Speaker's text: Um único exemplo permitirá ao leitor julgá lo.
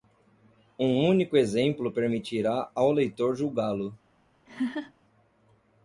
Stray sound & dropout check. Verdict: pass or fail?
fail